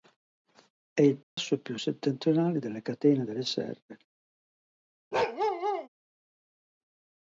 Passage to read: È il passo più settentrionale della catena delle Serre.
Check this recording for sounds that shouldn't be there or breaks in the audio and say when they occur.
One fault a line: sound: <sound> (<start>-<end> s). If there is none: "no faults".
sound: dropout (1.2-1.4 s)
sound: bark (5.1-5.9 s)